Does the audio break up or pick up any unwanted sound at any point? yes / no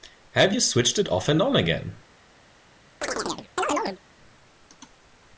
yes